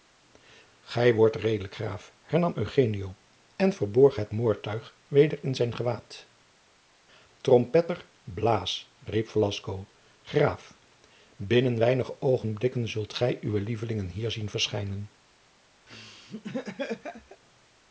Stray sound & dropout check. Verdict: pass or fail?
fail